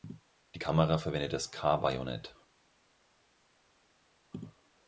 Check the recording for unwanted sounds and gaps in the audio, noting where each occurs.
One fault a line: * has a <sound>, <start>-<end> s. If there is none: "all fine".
all fine